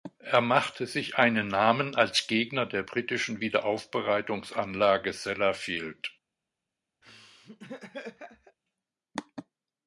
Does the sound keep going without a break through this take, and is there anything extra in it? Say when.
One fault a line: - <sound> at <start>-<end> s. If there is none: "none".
- laugh at 7.0-8.6 s